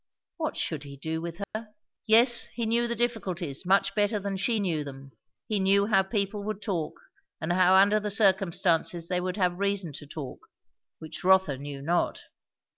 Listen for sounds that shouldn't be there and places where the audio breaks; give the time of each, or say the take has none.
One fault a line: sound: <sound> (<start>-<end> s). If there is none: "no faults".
sound: dropout (1.4-1.5 s)